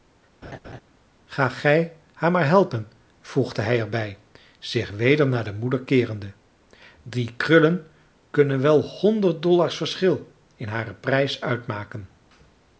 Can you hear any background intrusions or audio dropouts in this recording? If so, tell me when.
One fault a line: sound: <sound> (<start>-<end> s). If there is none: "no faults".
sound: laugh (0.4-0.8 s)